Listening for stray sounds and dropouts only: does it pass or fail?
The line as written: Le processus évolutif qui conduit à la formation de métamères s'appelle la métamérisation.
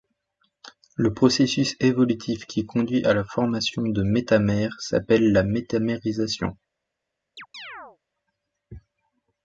fail